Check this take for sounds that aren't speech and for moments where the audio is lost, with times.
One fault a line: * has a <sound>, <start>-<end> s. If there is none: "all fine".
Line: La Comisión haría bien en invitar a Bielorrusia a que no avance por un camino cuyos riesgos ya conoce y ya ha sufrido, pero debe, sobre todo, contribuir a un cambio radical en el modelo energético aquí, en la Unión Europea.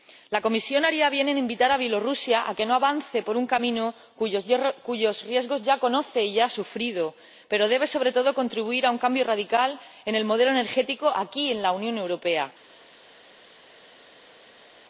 all fine